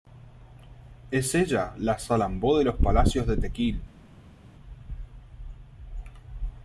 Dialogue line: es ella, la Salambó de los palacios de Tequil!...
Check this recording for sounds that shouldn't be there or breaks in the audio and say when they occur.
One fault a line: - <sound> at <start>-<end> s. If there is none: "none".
none